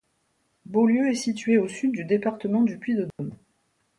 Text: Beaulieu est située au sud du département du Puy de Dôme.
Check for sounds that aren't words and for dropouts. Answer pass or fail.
fail